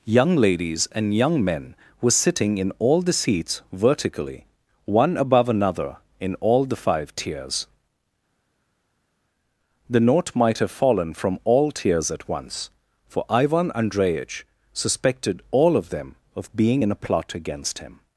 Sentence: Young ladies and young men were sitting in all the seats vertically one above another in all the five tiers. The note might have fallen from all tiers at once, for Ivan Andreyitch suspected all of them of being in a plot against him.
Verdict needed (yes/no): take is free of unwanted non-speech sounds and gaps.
yes